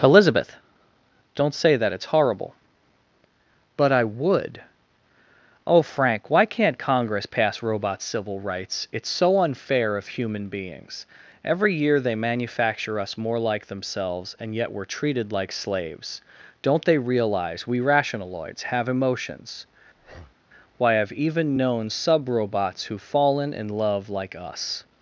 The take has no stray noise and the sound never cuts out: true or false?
false